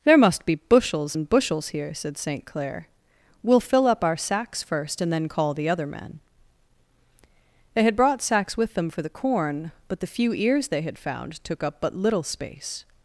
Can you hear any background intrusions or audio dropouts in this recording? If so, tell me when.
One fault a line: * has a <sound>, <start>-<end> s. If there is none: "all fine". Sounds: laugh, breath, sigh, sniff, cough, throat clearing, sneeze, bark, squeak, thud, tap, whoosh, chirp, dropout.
all fine